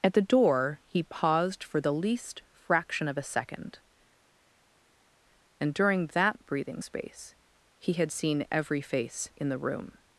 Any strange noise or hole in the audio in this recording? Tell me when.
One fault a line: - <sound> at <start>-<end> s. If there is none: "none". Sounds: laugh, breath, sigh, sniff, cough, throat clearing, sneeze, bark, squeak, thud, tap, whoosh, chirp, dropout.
none